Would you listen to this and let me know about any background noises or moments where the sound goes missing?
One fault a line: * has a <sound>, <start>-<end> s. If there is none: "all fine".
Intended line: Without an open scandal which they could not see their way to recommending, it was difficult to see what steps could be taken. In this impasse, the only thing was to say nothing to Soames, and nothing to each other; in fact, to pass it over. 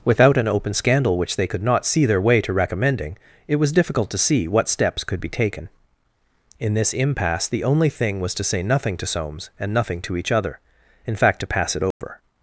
* has a dropout, 11.9-12.0 s